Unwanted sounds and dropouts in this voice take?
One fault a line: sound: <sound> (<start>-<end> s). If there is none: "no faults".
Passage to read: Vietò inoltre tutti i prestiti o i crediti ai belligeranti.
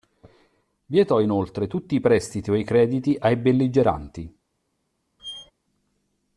sound: squeak (5.2-5.5 s)